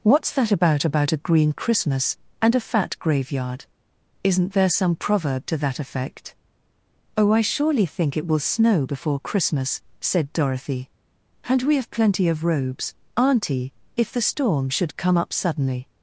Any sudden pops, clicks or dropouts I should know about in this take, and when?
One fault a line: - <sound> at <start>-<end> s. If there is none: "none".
none